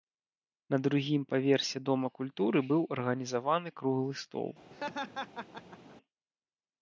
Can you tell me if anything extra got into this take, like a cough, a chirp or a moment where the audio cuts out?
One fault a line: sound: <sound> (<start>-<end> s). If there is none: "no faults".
sound: laugh (4.7-6.0 s)